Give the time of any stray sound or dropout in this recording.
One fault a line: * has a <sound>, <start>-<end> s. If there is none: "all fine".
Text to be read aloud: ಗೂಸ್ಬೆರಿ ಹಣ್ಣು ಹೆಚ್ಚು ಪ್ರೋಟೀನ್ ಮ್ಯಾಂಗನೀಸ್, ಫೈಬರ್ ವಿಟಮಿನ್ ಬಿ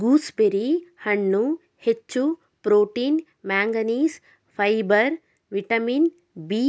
all fine